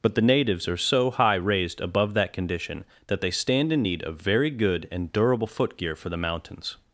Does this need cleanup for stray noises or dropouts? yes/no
no